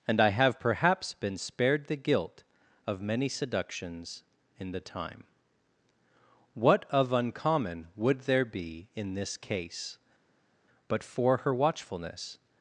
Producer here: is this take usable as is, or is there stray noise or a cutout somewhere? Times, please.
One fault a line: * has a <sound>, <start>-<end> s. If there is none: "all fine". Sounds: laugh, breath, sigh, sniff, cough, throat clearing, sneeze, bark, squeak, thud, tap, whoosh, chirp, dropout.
all fine